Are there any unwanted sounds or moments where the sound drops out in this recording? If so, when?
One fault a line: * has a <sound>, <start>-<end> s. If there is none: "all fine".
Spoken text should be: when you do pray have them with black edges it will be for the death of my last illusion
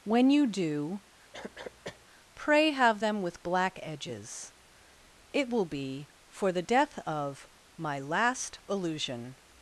* has a cough, 1.3-2.1 s